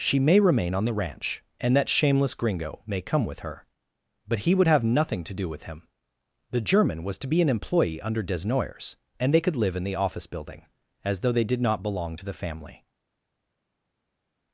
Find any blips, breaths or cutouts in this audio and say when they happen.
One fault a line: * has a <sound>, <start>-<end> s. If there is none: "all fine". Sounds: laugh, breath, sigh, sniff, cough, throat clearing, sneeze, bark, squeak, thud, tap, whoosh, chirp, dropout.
all fine